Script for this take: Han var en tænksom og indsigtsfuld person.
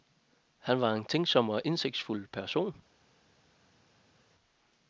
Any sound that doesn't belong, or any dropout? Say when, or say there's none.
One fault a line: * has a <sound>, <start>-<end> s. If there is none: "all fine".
all fine